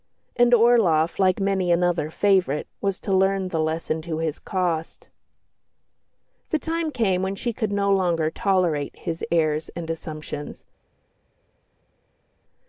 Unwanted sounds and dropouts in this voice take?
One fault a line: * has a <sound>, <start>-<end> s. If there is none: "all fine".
all fine